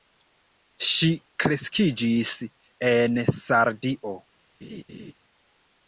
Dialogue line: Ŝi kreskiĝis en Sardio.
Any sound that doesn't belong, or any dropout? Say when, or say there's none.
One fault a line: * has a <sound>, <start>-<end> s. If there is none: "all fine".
* has a laugh, 4.6-5.1 s